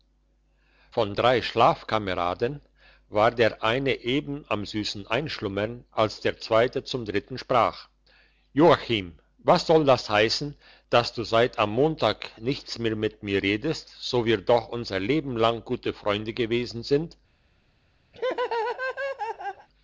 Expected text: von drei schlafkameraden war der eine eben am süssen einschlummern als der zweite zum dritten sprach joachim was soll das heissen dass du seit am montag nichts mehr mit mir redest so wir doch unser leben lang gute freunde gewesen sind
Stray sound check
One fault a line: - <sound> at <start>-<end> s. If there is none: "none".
- laugh at 18.1-19.7 s